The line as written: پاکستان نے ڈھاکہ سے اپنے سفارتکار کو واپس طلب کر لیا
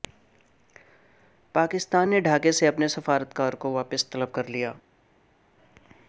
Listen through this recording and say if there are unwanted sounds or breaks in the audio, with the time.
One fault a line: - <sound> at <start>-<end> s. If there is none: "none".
none